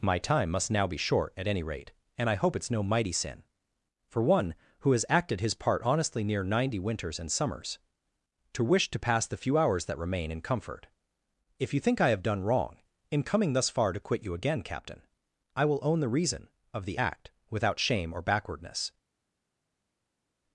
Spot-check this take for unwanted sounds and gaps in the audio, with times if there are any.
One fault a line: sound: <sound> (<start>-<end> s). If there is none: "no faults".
no faults